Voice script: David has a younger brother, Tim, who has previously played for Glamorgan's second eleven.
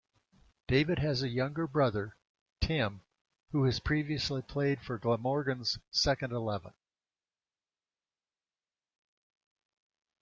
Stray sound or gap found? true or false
false